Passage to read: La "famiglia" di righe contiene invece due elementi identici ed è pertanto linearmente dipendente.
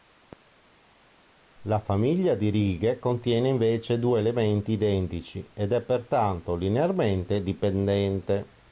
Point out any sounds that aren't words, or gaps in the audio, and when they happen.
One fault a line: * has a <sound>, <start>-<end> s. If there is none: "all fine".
all fine